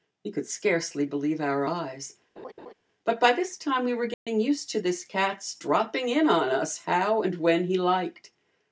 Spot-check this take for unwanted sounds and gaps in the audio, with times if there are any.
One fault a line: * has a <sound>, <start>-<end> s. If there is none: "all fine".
* has a laugh, 2.4-2.7 s
* has a dropout, 4.1-4.3 s